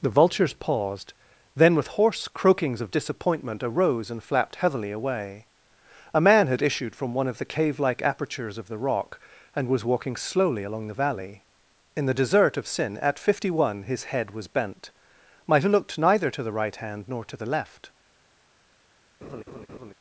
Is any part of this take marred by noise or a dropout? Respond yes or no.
yes